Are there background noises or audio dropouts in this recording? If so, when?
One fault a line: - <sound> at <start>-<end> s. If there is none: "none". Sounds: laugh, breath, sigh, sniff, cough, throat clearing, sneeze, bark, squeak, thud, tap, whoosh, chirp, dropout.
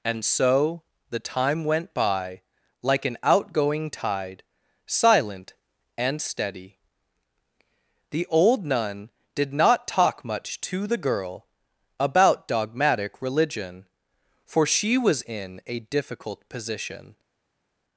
none